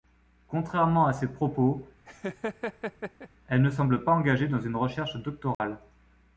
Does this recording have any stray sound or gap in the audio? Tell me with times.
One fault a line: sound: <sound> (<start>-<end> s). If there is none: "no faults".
sound: laugh (2.1-3.3 s)
sound: dropout (5.5-5.6 s)